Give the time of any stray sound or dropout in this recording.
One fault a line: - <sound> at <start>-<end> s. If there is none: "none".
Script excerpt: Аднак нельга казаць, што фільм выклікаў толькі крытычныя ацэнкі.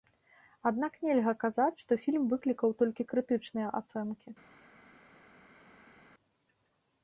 none